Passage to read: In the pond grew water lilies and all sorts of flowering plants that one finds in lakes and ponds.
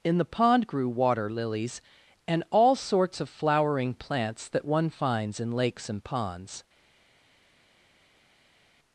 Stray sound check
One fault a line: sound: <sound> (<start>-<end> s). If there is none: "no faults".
no faults